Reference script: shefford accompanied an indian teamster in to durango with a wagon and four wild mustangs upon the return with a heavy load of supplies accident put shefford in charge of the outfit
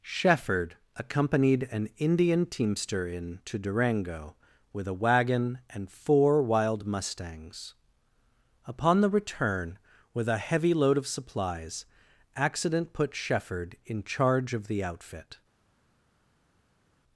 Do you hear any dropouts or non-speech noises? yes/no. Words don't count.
no